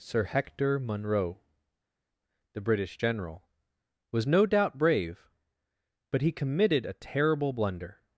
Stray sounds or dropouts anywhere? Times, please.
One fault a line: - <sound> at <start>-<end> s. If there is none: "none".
none